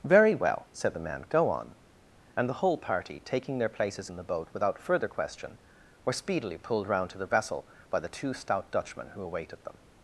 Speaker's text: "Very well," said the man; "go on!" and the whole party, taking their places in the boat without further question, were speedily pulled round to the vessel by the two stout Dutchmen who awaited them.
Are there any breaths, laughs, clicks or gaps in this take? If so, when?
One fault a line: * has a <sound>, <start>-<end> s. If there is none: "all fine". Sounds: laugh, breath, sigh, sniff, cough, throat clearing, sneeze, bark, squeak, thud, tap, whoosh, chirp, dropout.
all fine